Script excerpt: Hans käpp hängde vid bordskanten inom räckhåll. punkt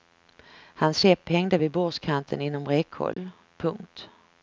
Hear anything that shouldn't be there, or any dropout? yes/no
yes